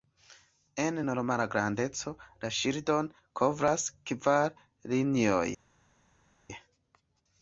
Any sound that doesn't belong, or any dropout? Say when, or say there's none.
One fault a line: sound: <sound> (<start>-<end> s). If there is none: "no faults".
no faults